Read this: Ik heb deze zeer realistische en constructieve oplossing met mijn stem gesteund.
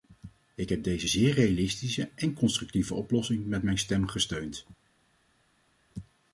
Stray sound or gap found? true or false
false